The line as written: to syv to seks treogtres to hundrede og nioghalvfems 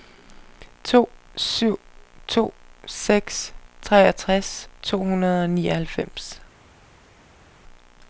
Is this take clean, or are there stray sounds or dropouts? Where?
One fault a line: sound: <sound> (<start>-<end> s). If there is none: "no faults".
no faults